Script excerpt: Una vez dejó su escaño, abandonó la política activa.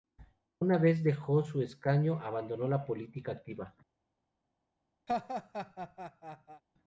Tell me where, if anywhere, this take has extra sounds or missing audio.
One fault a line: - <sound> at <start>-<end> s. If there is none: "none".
- laugh at 5.1-6.6 s